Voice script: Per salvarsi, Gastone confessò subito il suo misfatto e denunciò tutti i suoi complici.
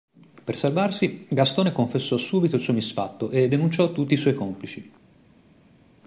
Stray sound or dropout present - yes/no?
no